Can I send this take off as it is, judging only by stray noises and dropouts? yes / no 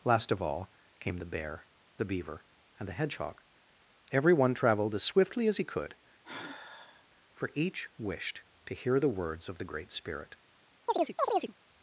no